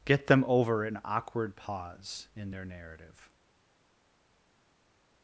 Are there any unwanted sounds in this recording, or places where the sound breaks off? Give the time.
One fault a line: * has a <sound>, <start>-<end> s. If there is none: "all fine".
all fine